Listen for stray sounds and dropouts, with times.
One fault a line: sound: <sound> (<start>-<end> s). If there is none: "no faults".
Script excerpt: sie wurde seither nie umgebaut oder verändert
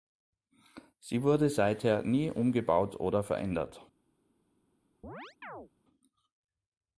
sound: chirp (5.0-5.7 s)